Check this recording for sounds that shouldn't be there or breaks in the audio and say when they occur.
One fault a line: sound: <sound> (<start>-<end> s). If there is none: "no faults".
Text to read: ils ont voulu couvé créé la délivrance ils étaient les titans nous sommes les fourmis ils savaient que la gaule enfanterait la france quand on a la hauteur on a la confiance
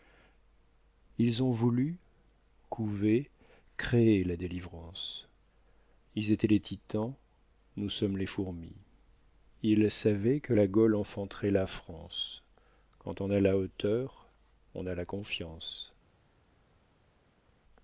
no faults